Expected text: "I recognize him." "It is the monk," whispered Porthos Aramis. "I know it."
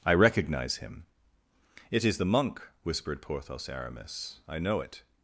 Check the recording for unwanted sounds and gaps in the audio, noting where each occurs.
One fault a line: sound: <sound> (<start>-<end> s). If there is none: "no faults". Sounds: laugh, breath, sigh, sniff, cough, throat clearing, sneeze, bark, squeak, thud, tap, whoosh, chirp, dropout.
no faults